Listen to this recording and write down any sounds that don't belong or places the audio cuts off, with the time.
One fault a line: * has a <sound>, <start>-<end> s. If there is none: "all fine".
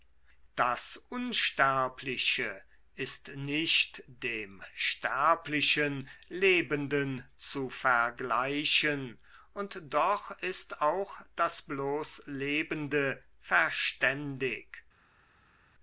all fine